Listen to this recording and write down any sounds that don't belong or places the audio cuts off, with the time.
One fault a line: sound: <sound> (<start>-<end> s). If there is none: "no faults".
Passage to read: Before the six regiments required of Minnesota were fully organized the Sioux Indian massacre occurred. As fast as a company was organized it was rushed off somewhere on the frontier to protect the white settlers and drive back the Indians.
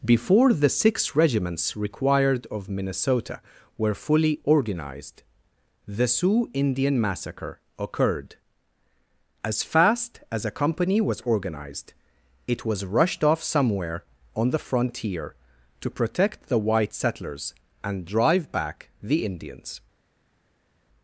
no faults